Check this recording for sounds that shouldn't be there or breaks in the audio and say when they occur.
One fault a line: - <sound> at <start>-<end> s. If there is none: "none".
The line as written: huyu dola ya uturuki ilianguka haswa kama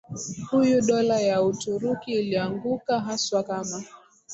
none